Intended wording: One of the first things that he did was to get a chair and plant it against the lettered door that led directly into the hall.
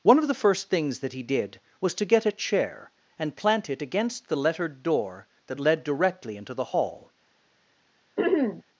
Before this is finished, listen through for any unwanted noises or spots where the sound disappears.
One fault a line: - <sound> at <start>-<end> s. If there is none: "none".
- throat clearing at 8.2-8.6 s